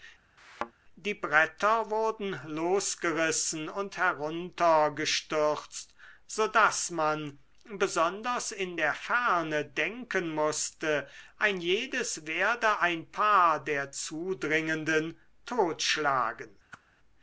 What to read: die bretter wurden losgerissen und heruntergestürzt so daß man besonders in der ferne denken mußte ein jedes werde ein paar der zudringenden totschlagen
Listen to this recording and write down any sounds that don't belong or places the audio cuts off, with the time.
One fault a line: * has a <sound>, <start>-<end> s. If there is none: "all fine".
* has a thud, 0.4-0.7 s
* has a whoosh, 16.7-16.8 s